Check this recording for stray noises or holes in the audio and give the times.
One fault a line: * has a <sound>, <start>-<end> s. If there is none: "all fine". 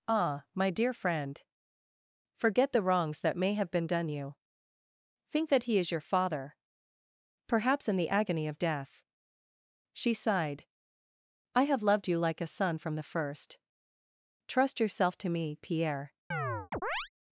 * has a chirp, 16.3-17.1 s